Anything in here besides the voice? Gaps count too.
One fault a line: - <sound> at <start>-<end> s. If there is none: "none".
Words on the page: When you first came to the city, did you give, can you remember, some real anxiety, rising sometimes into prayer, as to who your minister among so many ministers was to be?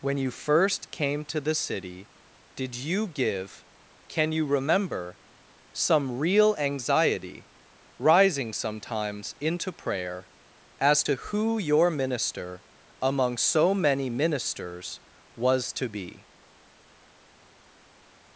none